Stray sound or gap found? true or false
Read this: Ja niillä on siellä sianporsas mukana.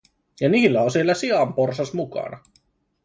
false